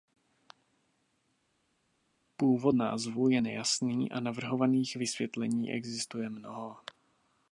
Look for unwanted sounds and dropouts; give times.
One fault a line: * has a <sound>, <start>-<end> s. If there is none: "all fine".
all fine